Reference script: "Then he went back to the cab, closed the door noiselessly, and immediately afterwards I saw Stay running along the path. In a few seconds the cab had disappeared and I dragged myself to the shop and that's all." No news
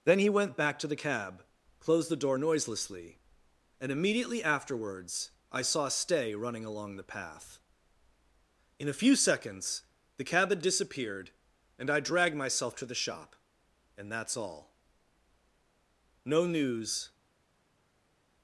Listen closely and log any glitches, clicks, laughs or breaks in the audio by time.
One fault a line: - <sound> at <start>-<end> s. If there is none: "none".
none